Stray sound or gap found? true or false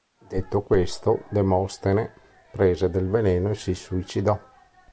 false